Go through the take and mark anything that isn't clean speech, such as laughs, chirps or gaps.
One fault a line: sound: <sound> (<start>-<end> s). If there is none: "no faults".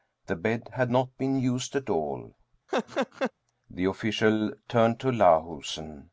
sound: laugh (2.7-3.3 s)